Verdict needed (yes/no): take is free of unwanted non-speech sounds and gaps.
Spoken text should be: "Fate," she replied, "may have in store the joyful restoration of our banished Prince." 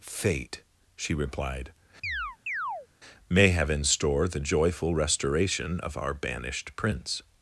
no